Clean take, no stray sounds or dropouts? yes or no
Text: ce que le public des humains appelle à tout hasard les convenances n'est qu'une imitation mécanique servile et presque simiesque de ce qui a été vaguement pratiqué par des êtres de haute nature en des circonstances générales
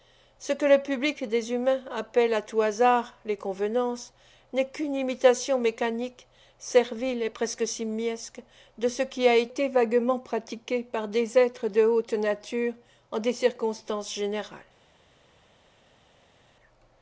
yes